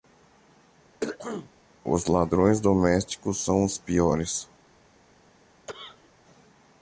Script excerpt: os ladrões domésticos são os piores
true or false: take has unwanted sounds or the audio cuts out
true